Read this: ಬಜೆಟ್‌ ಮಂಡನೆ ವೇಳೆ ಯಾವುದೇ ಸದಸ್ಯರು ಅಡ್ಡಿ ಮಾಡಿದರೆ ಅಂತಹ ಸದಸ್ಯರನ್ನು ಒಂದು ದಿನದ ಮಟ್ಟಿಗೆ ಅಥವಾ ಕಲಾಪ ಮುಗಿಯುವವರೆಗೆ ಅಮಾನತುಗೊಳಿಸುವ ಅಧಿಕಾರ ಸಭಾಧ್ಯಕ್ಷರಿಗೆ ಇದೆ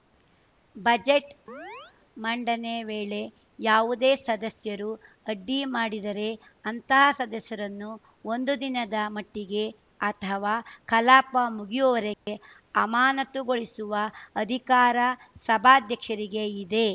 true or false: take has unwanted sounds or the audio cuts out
true